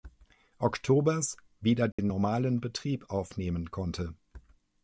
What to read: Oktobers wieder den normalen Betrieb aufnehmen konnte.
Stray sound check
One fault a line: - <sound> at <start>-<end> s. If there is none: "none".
- dropout at 1.9-2.0 s